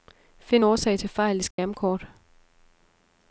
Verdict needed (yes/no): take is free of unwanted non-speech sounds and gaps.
no